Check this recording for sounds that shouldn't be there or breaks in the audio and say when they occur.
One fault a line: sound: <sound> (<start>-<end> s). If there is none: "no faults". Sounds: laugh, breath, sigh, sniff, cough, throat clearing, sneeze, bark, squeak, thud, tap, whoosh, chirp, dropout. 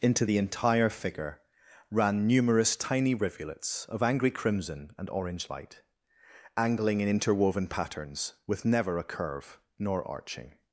no faults